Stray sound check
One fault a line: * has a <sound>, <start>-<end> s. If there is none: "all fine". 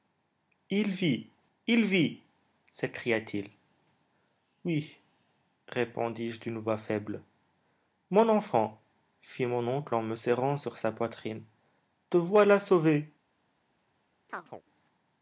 * has a chirp, 14.3-14.6 s